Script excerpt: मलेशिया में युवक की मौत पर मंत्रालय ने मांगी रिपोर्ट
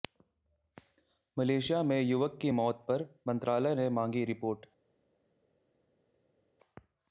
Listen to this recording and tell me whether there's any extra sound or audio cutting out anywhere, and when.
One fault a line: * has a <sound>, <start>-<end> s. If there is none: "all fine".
all fine